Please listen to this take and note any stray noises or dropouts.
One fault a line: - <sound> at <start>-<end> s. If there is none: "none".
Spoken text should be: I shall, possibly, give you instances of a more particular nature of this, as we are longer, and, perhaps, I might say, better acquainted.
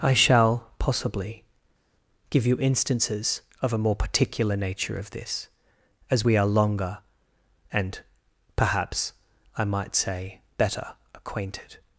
none